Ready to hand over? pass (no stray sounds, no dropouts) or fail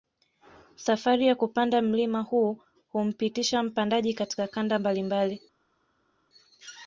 pass